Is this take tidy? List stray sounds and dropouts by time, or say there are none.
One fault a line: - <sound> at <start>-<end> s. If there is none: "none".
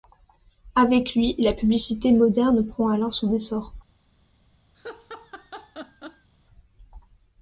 - laugh at 4.7-6.3 s